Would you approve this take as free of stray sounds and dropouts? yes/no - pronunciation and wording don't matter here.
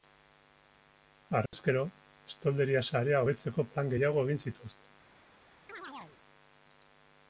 no